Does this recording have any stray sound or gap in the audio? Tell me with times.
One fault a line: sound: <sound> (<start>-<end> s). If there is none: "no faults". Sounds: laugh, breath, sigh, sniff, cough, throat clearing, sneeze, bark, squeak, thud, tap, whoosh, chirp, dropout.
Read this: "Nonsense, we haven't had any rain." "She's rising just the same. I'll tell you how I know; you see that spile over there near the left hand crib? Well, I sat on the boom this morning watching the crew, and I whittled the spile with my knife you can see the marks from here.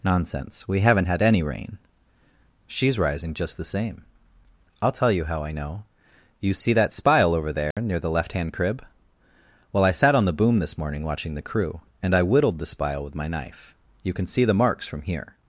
sound: dropout (7.7-7.8 s)